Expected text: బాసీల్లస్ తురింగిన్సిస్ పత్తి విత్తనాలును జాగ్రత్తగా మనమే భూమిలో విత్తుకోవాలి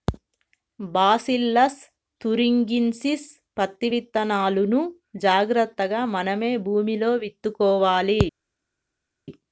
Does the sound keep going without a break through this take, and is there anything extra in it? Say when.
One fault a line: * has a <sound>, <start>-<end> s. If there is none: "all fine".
all fine